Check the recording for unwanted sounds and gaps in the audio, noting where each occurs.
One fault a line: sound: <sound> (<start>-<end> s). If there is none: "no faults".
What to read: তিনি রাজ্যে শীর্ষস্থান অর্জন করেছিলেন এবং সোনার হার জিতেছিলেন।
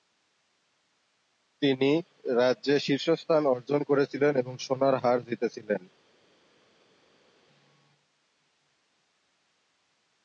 no faults